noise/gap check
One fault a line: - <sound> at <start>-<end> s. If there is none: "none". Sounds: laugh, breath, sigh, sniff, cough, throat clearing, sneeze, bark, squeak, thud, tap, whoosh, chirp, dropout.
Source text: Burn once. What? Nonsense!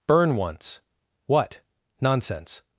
none